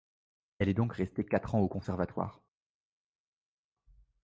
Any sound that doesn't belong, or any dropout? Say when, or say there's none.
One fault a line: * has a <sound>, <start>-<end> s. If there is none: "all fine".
all fine